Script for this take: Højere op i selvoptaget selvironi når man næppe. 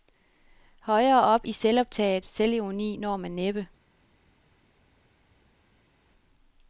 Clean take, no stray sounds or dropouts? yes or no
yes